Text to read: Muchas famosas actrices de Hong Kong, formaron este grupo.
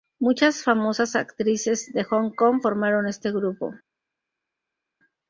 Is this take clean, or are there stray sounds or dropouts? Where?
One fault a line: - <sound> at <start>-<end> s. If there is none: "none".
none